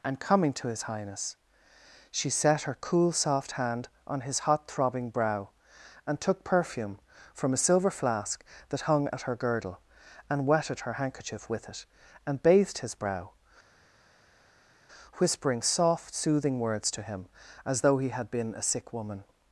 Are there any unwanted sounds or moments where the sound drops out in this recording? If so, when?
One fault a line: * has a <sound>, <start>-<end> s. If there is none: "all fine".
all fine